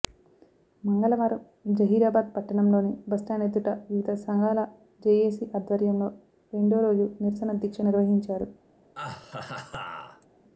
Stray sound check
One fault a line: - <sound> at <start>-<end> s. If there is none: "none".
- laugh at 8.9-10.3 s